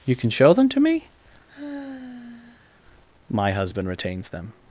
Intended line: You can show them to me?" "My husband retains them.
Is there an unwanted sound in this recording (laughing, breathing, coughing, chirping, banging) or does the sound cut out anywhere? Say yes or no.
yes